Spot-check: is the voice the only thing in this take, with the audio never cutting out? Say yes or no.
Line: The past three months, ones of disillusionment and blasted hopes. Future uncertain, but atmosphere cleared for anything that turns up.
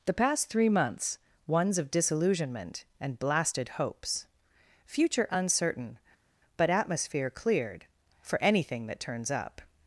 yes